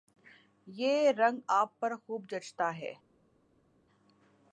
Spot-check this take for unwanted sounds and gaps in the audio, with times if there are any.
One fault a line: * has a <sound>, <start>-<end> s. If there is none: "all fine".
all fine